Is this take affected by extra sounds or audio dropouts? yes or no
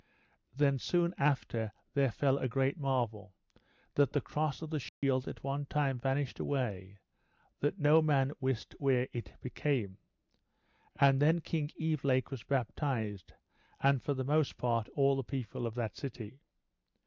yes